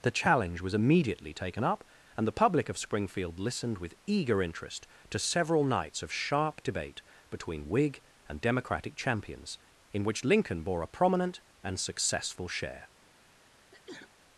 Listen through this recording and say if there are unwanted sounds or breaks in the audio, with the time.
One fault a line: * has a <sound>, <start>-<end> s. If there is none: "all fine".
* has a sneeze, 13.5-14.1 s